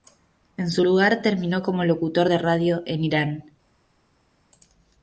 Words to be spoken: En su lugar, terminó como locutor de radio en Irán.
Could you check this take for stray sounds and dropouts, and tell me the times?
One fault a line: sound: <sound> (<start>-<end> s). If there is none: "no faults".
no faults